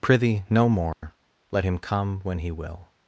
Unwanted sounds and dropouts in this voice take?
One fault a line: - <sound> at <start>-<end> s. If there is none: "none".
- dropout at 0.9-1.0 s